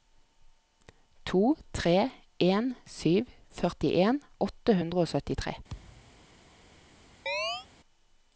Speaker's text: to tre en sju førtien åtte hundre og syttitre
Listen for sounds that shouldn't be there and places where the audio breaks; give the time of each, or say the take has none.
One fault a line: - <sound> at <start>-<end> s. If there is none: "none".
- thud at 5.7-6.2 s
- chirp at 7.3-7.7 s